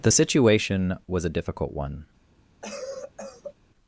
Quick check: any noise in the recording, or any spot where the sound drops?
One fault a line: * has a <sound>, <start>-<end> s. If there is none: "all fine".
* has a cough, 2.6-3.5 s